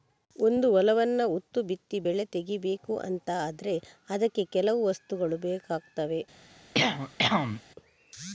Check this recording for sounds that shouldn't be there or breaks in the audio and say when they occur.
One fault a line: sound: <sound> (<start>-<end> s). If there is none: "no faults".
sound: cough (6.7-7.6 s)